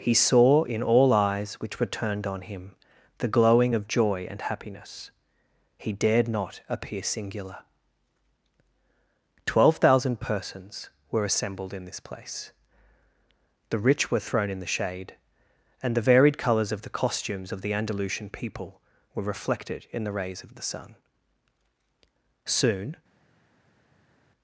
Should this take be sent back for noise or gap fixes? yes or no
no